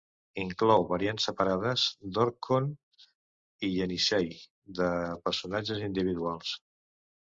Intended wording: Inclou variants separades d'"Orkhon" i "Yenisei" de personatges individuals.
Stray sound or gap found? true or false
false